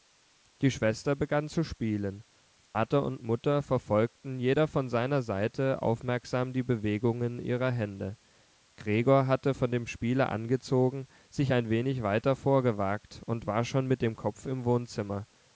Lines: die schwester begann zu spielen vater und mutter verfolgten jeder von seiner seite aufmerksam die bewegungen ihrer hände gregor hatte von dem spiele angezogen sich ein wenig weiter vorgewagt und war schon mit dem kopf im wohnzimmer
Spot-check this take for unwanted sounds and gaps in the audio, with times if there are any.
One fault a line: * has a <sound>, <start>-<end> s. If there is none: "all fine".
* has a dropout, 2.7-2.8 s